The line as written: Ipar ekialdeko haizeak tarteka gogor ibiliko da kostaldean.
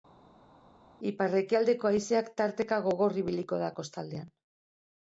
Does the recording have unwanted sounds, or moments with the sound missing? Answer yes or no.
no